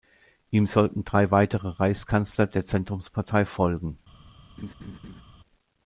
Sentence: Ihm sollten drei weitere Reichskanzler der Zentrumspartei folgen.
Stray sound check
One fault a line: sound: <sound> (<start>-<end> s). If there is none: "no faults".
sound: laugh (4.6-5.2 s)